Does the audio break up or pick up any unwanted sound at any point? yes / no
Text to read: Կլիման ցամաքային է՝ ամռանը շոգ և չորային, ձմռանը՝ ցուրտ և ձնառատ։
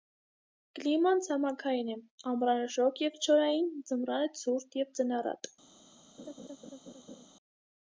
yes